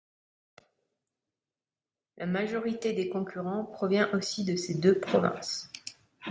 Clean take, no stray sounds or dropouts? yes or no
yes